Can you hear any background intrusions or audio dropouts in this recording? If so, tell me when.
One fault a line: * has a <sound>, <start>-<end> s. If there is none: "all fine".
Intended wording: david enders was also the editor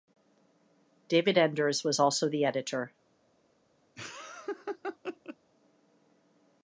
* has a laugh, 4.0-5.4 s